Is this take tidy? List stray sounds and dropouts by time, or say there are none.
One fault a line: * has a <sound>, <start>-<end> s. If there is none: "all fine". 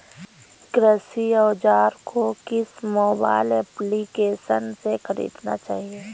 all fine